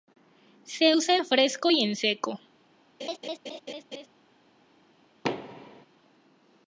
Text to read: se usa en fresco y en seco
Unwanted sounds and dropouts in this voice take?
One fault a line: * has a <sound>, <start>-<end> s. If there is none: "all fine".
* has a laugh, 3.0-4.1 s
* has a thud, 5.2-5.9 s